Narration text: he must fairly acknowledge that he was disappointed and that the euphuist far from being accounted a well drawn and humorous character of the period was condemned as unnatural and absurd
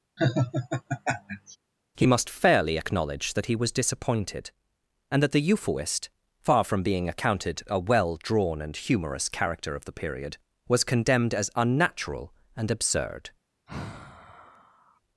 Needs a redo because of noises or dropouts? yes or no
yes